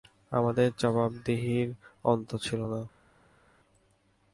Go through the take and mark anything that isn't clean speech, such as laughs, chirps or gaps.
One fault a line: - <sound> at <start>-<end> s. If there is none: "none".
none